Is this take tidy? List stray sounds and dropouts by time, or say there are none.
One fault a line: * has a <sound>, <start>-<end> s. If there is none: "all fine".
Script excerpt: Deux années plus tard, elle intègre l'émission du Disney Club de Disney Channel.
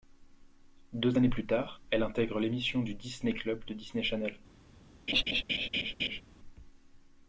* has a laugh, 5.1-6.2 s